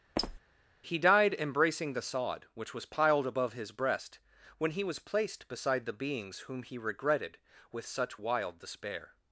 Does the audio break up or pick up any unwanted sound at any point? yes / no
yes